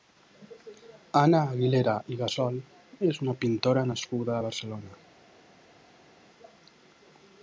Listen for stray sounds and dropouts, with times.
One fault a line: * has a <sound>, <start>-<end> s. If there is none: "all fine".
all fine